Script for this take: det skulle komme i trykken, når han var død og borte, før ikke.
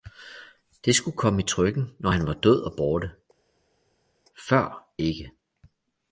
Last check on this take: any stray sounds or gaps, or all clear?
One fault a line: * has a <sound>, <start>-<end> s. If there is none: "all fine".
all fine